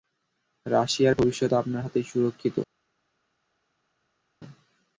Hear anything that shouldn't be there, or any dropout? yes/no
no